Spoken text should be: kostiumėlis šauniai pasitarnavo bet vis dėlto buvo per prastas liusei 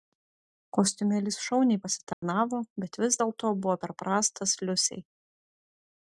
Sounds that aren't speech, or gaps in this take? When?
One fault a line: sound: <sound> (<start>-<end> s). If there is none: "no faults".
sound: dropout (2.1-2.2 s)